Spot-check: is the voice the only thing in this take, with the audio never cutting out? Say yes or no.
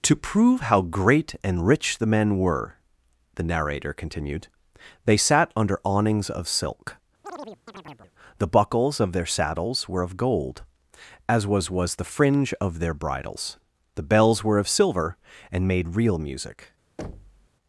no